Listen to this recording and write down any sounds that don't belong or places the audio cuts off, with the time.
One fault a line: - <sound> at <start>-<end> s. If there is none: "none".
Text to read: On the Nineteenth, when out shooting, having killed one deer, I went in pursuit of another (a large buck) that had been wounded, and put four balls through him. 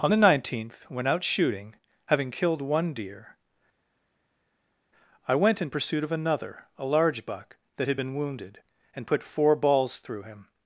none